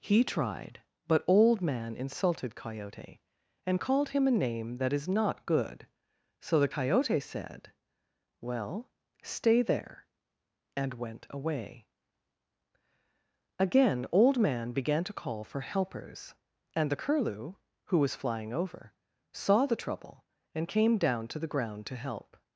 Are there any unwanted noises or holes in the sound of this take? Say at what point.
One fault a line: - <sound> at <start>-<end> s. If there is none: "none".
none